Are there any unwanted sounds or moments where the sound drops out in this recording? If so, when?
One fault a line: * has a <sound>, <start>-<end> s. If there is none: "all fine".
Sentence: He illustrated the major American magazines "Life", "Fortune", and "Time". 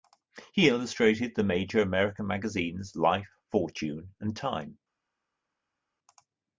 all fine